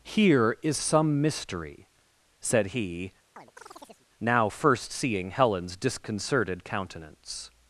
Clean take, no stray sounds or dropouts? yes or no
no